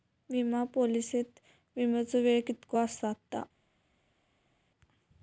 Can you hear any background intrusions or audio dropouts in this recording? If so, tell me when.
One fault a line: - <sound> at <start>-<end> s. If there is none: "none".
none